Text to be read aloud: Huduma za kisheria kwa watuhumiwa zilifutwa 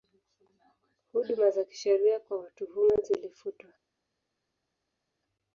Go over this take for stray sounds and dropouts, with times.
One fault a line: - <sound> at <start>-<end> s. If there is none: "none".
none